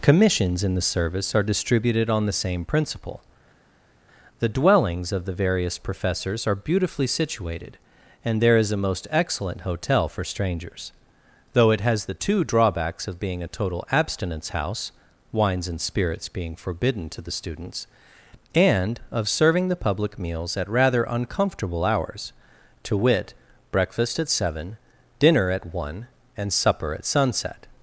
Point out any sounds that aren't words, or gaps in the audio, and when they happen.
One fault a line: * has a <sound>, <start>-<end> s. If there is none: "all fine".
all fine